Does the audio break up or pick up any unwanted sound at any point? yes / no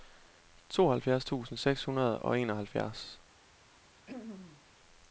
yes